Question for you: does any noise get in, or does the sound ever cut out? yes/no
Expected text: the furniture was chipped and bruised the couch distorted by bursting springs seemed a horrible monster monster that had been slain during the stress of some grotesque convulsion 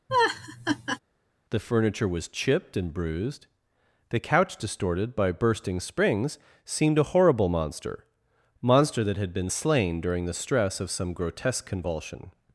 yes